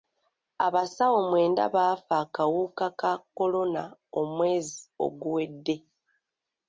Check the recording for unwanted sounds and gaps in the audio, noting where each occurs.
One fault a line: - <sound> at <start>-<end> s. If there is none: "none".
none